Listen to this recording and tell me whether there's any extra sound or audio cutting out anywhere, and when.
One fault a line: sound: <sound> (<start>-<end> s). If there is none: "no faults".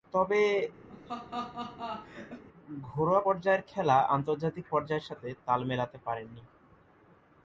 sound: laugh (0.9-2.4 s)